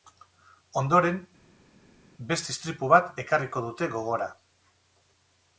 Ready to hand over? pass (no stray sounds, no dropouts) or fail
pass